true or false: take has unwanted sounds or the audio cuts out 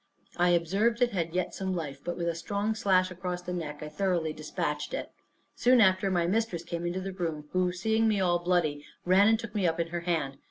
false